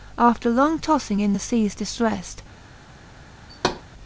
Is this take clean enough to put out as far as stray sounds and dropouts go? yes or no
no